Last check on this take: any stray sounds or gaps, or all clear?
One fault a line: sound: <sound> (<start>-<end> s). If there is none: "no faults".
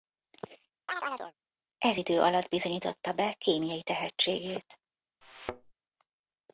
sound: chirp (0.9-1.3 s)
sound: thud (5.2-5.7 s)